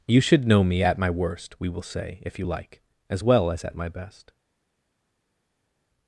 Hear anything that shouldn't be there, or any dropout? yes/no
no